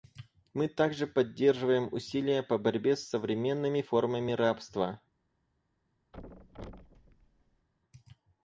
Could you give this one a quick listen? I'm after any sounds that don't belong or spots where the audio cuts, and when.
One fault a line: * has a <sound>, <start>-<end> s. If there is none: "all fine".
* has a thud, 6.1-7.7 s